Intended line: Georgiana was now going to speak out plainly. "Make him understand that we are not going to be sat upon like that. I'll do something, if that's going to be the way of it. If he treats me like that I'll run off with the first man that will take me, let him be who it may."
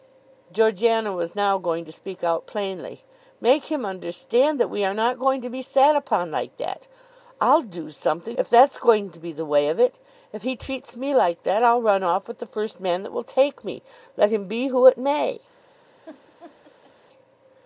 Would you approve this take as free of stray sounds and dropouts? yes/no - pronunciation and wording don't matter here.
no